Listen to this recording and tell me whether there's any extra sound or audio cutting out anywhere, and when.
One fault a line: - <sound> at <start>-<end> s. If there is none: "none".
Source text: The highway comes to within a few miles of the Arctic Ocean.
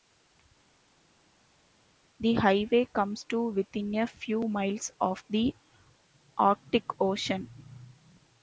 none